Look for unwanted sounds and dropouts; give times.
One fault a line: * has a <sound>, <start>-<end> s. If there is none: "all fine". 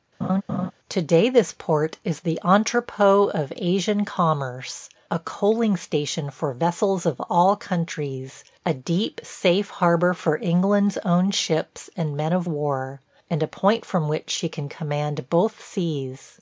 * has a laugh, 0.2-0.7 s